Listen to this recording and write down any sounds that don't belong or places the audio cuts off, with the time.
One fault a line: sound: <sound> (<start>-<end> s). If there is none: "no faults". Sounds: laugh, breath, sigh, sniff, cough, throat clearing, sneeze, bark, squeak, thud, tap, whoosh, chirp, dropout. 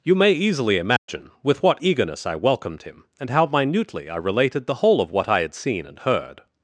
sound: dropout (1.0-1.1 s)